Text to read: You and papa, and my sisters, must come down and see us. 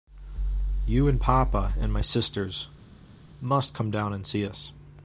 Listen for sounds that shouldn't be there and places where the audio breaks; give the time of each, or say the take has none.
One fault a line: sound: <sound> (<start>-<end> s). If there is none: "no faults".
no faults